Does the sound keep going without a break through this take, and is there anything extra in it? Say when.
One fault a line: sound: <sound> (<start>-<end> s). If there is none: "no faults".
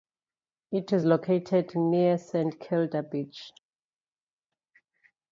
no faults